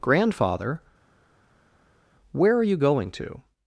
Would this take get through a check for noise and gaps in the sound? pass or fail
pass